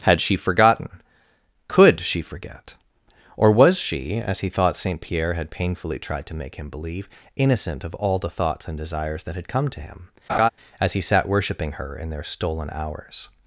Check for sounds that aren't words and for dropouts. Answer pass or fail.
fail